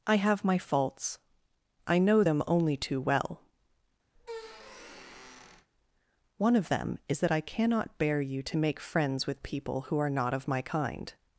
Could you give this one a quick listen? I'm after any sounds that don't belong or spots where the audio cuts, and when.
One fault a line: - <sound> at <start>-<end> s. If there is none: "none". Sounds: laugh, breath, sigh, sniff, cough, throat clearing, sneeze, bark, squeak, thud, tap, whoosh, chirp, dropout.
- squeak at 4.1-5.7 s